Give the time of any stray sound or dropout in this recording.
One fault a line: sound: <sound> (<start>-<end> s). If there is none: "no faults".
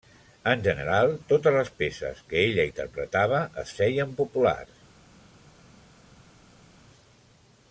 no faults